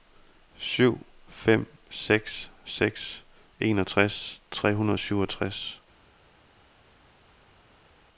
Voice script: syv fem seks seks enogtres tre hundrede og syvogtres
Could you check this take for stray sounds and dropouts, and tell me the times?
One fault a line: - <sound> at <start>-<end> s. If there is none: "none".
none